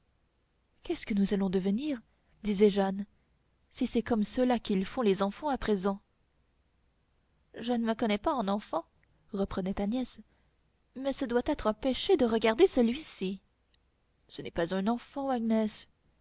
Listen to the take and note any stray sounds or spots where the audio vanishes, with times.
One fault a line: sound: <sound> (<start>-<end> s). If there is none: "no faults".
no faults